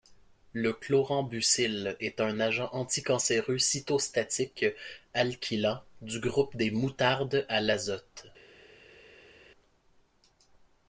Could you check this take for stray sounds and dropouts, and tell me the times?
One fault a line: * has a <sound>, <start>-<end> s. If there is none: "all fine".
all fine